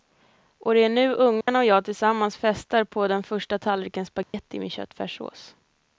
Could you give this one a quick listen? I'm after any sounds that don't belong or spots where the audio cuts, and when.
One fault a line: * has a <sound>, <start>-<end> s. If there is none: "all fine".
* has a dropout, 1.4-1.5 s
* has a dropout, 4.2-4.3 s